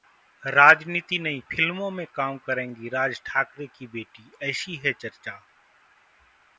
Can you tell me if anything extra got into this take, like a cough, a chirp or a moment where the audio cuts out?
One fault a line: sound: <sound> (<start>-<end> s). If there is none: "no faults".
no faults